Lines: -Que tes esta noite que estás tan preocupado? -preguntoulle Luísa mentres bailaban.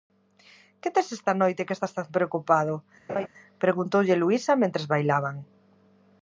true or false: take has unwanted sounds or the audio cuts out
true